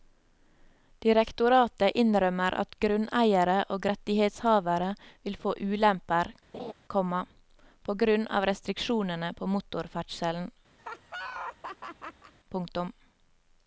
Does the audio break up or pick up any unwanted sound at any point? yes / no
yes